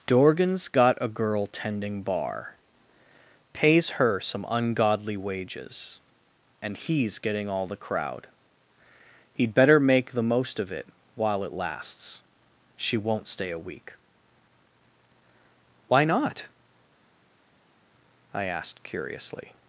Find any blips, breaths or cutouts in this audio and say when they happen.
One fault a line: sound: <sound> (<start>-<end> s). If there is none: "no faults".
no faults